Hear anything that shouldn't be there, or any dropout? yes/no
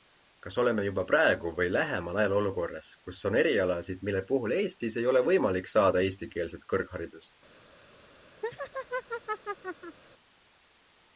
yes